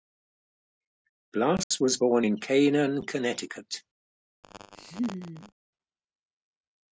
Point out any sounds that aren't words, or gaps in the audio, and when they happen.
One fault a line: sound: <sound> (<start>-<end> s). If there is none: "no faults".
sound: dropout (1.6-1.7 s)
sound: laugh (4.4-5.5 s)